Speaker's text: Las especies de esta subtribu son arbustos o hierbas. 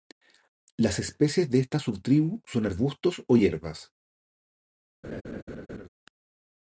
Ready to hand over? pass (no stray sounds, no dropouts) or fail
fail